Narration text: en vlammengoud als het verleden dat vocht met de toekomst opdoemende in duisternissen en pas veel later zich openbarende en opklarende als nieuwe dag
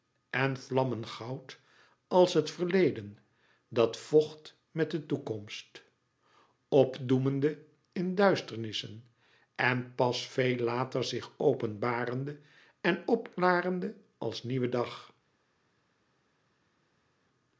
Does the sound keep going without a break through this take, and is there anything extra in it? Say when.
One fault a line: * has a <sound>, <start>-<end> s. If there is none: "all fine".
all fine